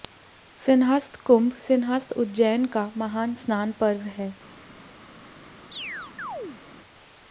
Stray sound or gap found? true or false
true